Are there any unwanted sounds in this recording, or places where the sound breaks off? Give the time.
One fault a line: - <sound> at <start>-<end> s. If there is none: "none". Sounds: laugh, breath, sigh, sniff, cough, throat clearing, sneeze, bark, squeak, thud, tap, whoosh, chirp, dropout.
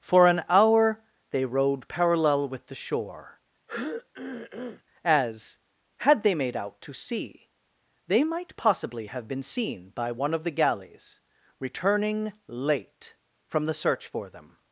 - throat clearing at 3.7-4.8 s